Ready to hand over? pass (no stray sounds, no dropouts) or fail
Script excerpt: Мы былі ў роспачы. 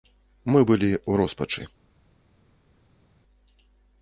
pass